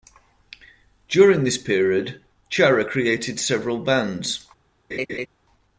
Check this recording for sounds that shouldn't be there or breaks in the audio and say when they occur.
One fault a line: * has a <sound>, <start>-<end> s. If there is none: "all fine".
* has a laugh, 4.9-5.3 s